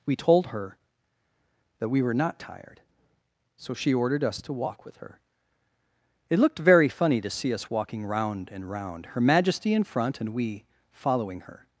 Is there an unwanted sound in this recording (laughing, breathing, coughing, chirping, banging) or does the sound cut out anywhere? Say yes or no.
no